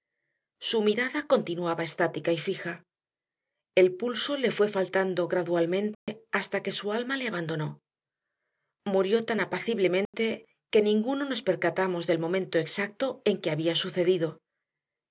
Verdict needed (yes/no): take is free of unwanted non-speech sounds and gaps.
no